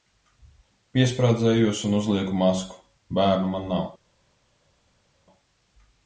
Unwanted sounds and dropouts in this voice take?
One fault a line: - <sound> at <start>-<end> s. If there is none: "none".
none